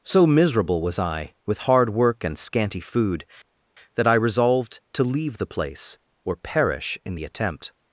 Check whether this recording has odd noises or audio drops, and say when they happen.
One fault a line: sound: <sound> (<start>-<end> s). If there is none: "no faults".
no faults